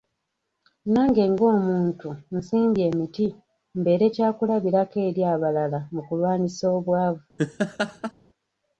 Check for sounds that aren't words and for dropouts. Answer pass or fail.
fail